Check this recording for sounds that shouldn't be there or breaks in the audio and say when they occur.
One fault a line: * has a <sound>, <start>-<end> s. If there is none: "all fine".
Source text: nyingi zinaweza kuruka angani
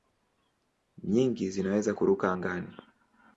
all fine